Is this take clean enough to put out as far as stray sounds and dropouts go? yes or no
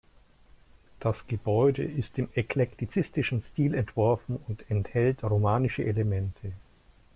yes